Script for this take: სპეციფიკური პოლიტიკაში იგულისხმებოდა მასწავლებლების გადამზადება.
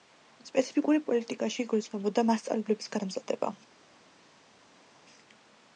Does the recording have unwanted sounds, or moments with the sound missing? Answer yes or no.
no